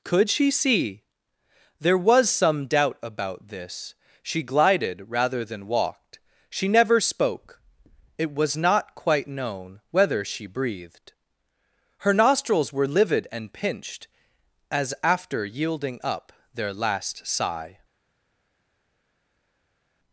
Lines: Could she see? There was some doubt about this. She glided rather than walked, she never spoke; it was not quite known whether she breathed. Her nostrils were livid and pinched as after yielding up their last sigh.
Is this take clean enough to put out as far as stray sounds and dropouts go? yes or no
yes